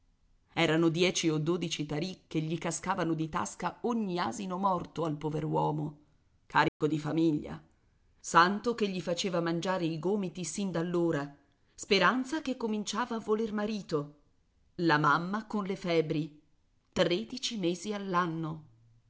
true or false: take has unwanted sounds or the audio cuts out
true